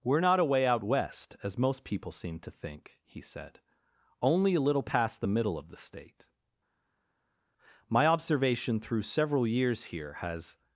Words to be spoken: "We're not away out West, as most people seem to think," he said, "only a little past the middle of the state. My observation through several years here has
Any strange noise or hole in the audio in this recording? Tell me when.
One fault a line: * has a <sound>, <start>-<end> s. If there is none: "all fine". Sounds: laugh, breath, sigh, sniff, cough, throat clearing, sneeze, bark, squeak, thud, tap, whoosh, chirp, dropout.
all fine